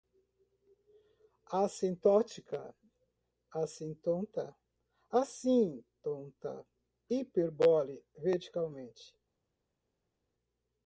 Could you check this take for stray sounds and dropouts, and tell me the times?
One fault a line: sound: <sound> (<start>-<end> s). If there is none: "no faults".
no faults